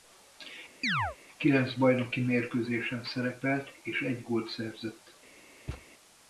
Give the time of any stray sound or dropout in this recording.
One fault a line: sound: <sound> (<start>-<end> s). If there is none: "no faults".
sound: chirp (0.8-1.2 s)
sound: thud (5.7-5.9 s)